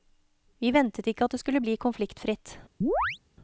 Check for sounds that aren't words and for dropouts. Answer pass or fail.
fail